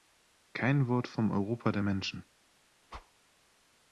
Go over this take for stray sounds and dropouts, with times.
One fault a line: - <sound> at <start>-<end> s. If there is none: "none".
- whoosh at 2.9-3.1 s